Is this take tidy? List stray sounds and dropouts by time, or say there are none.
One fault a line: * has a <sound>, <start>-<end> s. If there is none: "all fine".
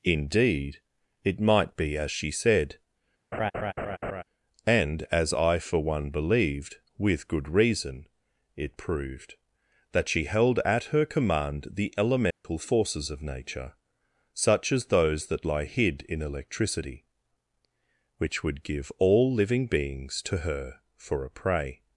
* has a laugh, 3.3-4.2 s
* has a dropout, 12.3-12.4 s